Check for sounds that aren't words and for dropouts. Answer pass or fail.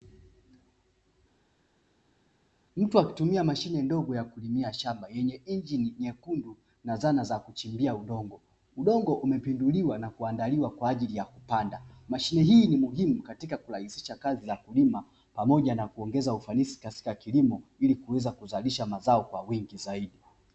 pass